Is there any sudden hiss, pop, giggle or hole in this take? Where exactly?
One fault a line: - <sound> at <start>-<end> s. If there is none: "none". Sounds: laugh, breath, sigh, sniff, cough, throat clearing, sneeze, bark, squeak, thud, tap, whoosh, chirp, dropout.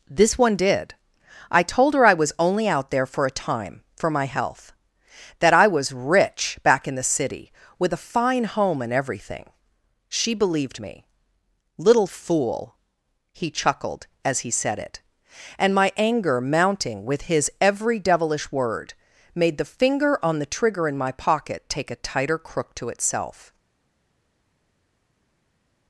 none